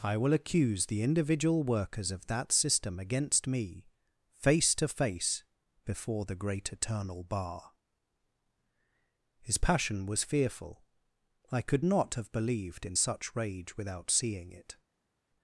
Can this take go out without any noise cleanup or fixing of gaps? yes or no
yes